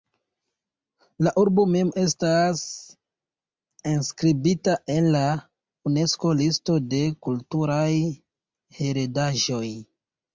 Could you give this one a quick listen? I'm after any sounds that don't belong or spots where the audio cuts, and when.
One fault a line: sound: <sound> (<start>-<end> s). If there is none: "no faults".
no faults